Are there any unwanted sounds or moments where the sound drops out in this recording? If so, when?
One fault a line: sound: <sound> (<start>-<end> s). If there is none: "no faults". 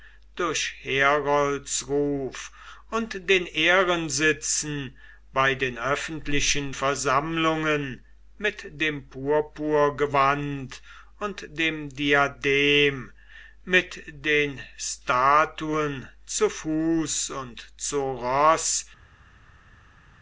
no faults